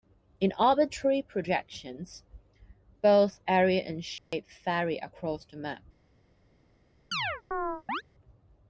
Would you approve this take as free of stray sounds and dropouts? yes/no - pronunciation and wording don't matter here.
no